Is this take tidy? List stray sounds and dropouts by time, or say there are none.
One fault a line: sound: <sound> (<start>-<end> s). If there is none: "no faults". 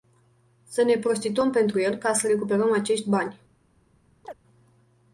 sound: chirp (4.2-4.3 s)